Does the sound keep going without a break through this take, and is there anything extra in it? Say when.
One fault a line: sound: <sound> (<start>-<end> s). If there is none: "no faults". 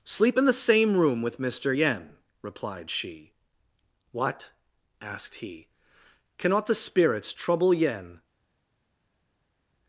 no faults